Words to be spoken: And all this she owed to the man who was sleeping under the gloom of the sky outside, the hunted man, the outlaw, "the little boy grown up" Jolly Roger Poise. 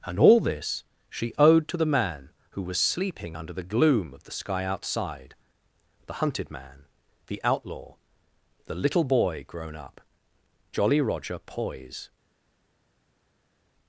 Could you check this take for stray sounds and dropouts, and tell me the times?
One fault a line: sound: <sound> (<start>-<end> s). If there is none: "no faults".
no faults